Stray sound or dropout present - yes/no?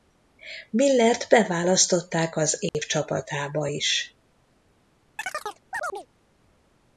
yes